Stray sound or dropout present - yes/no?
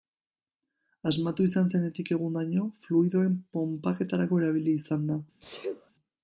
yes